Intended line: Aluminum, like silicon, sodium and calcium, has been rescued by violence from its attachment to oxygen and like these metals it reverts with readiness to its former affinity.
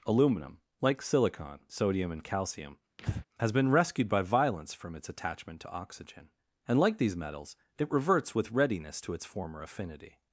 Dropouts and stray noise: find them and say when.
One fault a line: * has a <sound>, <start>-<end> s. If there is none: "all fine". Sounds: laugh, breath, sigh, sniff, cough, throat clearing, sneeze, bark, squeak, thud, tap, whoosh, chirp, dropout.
* has a breath, 3.0-3.3 s